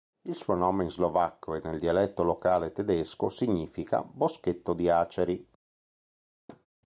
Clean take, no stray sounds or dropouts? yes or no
no